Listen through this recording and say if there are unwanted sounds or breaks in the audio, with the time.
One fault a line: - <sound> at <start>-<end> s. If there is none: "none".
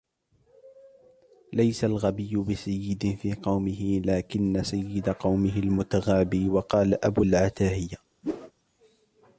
- whoosh at 8.2-8.5 s